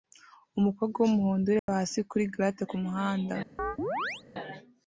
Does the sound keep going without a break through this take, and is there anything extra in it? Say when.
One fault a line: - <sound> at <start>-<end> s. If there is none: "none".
- dropout at 1.6-1.7 s
- chirp at 3.6-4.2 s